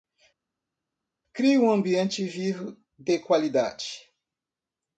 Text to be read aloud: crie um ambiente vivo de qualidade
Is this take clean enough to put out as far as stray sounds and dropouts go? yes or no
yes